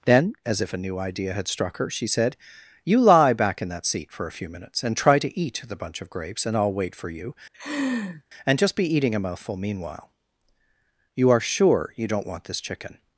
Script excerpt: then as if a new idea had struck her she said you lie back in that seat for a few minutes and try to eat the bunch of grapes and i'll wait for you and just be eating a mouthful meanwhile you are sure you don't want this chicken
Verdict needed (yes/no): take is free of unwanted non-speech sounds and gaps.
no